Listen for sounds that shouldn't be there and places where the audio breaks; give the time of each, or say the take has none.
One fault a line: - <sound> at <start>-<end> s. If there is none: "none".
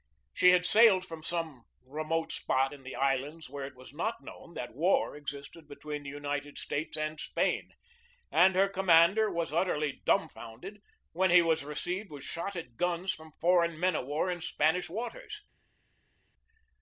none